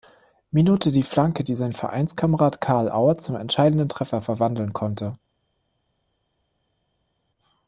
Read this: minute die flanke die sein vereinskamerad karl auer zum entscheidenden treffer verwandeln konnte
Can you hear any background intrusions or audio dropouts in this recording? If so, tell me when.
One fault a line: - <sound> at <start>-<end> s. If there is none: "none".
none